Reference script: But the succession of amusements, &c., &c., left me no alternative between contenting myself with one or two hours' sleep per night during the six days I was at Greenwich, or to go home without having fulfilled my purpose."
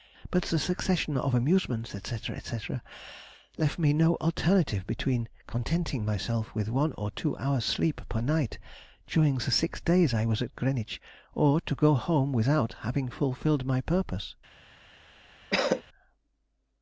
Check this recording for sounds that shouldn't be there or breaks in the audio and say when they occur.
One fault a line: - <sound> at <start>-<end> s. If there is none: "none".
- cough at 15.5-15.8 s